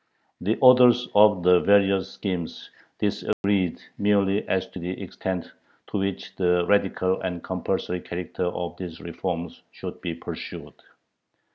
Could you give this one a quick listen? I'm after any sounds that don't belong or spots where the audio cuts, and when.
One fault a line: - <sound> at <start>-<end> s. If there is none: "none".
- dropout at 3.3-3.4 s